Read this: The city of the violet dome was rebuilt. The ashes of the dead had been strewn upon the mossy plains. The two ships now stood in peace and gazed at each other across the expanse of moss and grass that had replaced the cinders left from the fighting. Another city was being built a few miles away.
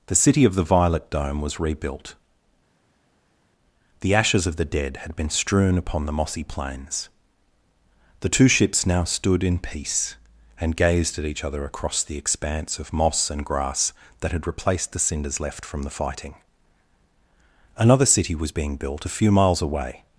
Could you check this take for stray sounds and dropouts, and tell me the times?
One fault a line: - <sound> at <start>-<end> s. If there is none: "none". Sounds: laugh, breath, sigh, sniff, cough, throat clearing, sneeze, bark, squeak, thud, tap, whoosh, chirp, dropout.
none